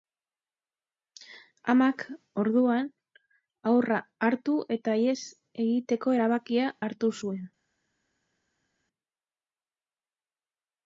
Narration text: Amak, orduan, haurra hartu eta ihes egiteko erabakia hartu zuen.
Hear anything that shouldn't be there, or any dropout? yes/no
no